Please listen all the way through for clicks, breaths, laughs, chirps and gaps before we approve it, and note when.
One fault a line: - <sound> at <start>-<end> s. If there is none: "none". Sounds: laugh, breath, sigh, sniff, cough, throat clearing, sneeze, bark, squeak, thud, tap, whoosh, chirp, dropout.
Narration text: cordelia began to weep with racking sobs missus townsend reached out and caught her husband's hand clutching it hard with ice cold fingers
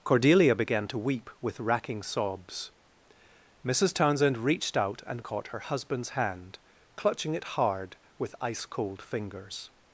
none